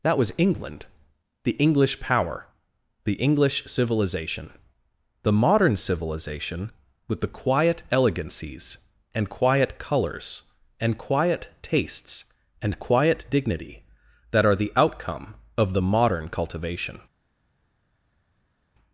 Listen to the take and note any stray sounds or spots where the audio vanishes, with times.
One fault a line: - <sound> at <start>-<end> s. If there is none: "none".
none